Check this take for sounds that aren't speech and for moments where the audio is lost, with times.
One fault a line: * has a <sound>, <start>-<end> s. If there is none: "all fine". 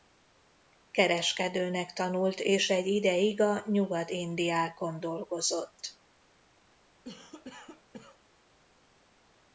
* has a cough, 7.0-8.2 s